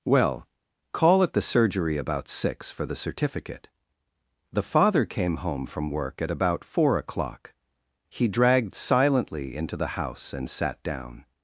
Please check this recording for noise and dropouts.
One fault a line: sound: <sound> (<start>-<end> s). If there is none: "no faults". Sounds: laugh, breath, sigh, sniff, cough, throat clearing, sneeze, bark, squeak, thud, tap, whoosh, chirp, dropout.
no faults